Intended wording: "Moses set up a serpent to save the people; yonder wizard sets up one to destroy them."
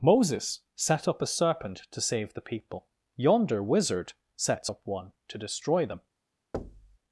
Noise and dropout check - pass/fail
fail